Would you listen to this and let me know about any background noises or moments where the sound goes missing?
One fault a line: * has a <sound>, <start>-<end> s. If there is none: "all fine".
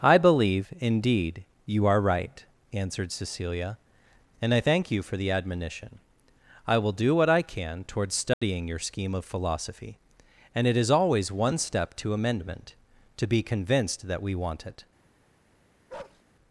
* has a dropout, 8.3-8.4 s
* has a bark, 15.9-16.2 s